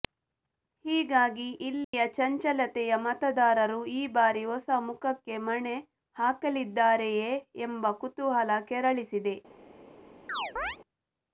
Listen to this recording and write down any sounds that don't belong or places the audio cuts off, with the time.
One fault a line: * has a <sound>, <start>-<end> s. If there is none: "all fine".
* has a dropout, 1.8-1.9 s
* has a chirp, 10.3-10.8 s